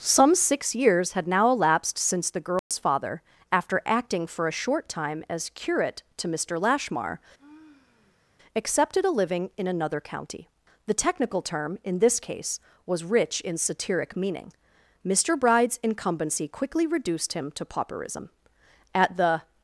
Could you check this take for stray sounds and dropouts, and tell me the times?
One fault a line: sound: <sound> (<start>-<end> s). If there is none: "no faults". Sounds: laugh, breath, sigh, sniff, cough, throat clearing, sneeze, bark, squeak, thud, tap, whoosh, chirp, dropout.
sound: dropout (2.6-2.7 s)
sound: sigh (7.4-8.4 s)